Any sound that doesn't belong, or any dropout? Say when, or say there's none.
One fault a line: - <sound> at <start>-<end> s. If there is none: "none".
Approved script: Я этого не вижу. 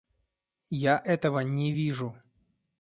none